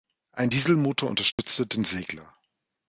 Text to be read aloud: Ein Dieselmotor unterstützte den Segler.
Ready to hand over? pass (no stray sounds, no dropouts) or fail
fail